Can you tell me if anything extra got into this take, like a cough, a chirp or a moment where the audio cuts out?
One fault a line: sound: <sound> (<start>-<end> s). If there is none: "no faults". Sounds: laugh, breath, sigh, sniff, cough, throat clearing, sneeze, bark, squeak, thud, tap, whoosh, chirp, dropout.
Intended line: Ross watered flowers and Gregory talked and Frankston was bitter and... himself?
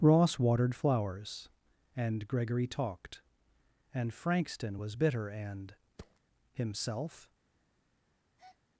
sound: thud (6.0-6.2 s)
sound: breath (8.4-8.6 s)